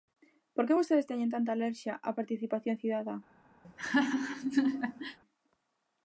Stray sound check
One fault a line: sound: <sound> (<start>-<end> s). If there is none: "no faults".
sound: laugh (3.6-5.2 s)